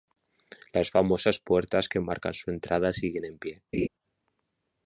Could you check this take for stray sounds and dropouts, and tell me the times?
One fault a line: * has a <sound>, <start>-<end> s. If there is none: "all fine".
* has a laugh, 3.7-3.9 s